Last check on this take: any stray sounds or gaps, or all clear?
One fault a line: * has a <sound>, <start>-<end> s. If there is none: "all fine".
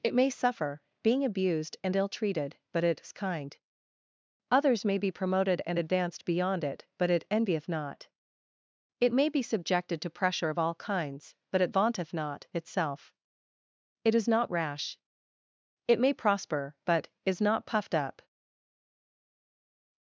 all fine